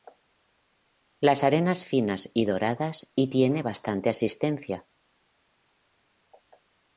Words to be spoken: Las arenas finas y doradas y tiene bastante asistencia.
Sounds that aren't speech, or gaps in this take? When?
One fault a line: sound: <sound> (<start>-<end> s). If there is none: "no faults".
no faults